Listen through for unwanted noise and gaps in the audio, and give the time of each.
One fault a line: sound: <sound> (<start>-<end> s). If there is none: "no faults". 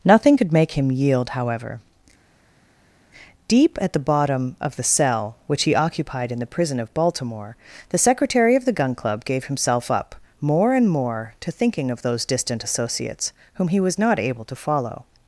no faults